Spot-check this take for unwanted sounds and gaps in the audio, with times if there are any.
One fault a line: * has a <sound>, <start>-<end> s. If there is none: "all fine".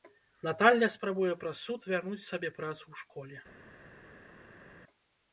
all fine